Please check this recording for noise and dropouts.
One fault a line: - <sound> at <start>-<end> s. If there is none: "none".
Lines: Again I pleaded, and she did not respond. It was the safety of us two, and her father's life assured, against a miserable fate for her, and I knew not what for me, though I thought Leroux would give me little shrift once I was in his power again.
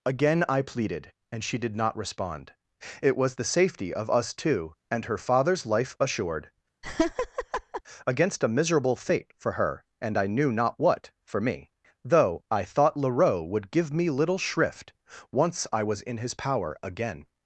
- laugh at 6.8-7.8 s